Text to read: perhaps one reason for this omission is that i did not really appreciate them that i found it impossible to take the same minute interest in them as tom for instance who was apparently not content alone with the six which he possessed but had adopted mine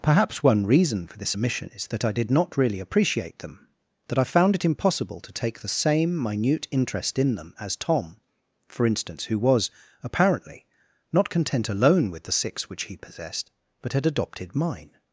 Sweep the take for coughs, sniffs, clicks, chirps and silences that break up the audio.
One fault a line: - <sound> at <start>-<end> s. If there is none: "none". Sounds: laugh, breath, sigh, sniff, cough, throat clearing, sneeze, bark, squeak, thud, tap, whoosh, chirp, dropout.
none